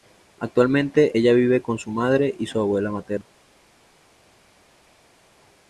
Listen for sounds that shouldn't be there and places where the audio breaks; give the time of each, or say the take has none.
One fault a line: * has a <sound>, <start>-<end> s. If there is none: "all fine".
all fine